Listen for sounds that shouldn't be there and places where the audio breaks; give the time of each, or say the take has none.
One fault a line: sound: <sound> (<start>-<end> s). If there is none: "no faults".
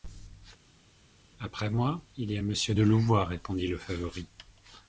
no faults